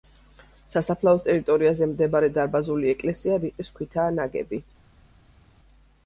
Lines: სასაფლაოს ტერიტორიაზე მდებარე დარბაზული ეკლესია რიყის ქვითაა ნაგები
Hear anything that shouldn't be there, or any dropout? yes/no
no